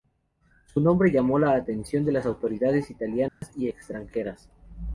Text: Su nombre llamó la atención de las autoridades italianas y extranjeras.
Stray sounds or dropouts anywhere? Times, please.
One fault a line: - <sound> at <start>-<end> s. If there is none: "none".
- dropout at 3.3-3.4 s